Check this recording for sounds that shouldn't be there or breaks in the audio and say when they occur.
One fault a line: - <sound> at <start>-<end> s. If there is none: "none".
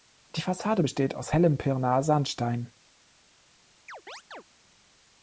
- chirp at 3.9-4.4 s